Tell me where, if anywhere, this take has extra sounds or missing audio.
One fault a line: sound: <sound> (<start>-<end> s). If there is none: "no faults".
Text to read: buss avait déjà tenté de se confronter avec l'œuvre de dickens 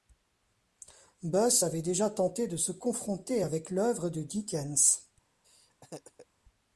sound: laugh (5.4-6.3 s)